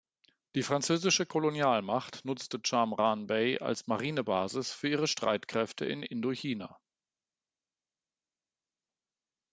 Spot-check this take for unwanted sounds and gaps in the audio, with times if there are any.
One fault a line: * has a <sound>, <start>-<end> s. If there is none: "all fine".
all fine